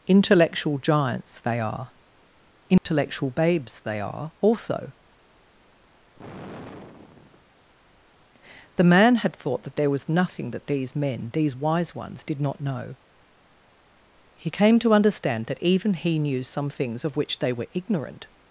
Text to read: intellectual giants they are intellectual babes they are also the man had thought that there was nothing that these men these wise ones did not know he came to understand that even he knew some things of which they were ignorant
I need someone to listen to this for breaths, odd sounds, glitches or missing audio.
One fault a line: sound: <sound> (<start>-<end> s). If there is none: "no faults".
sound: dropout (2.8-2.9 s)
sound: sigh (6.1-7.5 s)